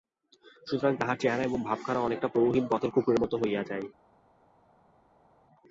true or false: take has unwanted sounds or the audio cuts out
false